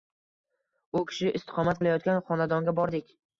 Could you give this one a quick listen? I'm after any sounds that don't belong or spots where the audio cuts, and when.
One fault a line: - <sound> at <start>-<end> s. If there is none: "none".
none